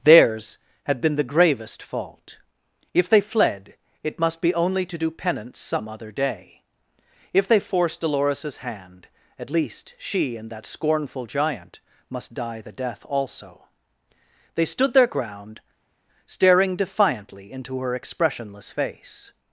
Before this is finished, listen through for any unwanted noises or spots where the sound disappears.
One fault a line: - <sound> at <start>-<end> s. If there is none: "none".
none